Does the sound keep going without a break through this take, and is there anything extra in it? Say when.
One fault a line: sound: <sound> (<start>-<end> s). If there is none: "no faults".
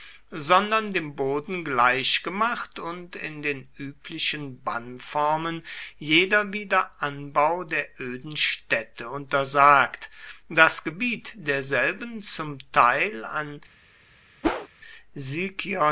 sound: whoosh (14.4-14.7 s)